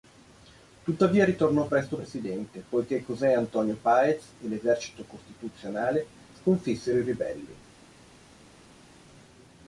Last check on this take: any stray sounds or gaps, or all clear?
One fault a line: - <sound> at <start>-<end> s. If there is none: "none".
none